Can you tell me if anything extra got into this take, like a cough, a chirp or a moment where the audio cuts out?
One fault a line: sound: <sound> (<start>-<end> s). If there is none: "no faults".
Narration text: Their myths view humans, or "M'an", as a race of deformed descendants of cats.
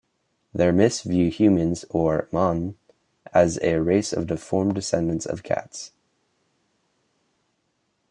no faults